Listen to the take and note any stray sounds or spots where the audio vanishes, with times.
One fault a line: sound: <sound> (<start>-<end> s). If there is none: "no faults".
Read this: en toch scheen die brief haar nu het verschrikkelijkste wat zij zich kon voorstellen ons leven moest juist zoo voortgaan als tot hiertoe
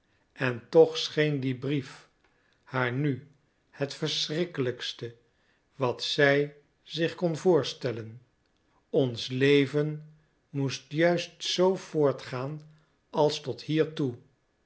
no faults